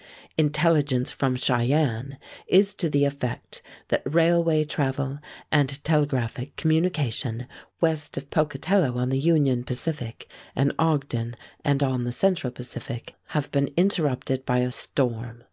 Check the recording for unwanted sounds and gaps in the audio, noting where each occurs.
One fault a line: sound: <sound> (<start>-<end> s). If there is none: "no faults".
no faults